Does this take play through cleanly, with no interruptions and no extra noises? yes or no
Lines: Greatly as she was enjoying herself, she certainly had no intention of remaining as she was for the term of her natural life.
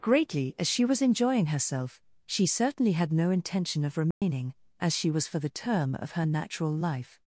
no